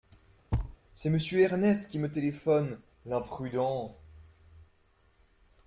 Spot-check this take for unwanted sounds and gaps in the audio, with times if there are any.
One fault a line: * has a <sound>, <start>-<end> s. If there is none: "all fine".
* has a thud, 0.5-0.8 s